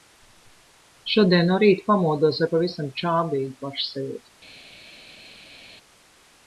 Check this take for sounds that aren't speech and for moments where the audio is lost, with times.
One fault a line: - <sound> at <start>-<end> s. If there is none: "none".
none